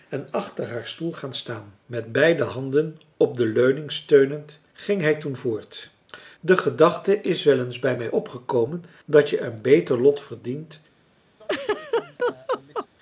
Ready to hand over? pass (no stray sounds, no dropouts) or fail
fail